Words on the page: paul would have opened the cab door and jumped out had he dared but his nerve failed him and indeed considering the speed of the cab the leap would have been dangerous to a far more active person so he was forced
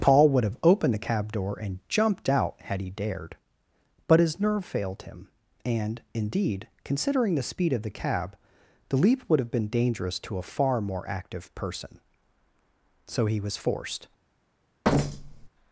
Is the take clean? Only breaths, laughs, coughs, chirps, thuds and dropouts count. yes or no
no